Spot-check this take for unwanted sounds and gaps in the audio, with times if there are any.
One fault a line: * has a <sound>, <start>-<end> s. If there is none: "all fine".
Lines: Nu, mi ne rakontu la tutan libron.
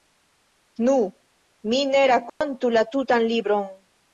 * has a dropout, 2.3-2.4 s